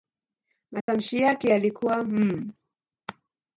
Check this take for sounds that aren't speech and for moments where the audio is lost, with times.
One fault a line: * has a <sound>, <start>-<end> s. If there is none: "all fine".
* has a dropout, 0.8-0.9 s